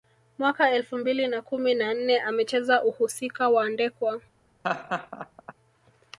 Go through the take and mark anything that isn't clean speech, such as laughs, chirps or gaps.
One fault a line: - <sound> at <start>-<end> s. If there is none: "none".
- laugh at 4.6-5.5 s